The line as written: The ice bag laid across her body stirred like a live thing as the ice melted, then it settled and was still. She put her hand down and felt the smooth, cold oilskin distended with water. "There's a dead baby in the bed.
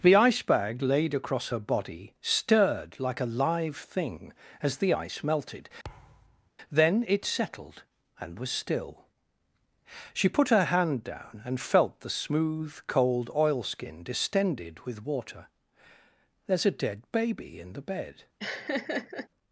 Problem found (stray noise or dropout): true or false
true